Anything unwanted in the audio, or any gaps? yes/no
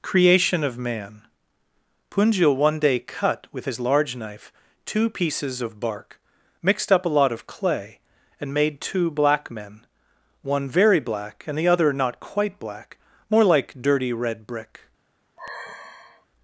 yes